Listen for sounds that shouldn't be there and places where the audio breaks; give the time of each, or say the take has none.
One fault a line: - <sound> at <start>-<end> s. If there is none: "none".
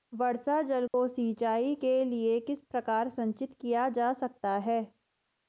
- dropout at 0.9-0.9 s